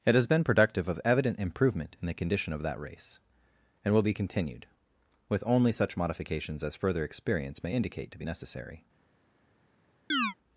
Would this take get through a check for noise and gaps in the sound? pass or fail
fail